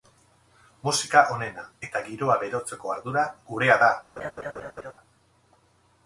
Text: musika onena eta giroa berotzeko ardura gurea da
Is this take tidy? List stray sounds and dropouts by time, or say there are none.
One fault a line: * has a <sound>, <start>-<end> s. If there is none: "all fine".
* has a laugh, 4.2-4.9 s